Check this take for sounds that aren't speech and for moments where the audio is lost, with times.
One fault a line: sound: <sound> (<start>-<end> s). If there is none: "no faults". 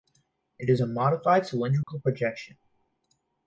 sound: dropout (1.8-1.9 s)